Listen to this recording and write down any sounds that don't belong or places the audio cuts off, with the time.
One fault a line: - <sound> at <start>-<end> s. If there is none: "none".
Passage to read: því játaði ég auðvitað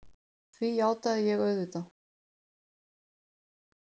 none